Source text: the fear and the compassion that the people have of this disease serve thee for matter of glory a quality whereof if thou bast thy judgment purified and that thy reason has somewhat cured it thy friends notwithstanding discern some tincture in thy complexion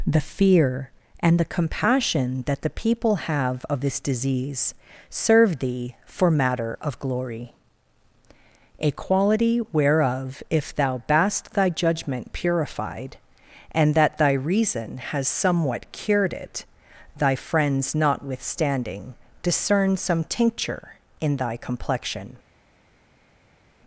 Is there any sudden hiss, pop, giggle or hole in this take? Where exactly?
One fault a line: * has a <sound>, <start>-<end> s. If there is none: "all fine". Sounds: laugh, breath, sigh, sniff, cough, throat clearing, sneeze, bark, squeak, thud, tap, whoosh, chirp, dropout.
all fine